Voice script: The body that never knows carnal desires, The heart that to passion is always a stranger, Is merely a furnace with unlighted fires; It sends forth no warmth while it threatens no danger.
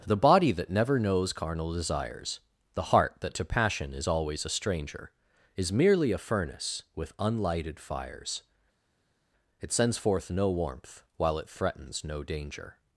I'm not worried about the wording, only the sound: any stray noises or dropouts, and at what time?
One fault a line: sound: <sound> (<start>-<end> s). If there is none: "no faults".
no faults